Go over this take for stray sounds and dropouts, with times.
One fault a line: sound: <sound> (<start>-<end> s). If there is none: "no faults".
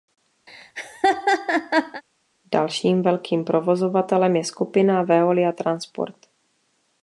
sound: laugh (0.5-2.0 s)